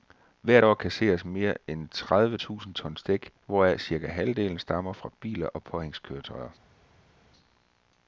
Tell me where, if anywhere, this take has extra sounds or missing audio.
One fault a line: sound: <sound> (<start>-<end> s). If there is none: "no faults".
no faults